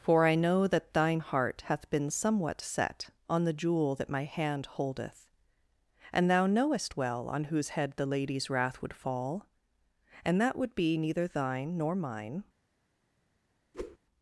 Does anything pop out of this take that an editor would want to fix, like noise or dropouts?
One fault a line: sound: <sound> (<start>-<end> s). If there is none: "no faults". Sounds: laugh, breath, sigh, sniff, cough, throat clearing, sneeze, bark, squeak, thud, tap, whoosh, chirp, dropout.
sound: whoosh (13.7-14.0 s)